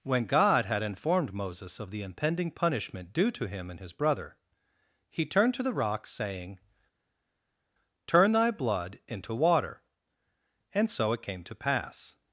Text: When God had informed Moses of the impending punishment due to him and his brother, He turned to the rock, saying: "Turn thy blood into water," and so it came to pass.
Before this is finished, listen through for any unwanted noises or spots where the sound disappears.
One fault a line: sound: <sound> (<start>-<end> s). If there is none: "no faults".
no faults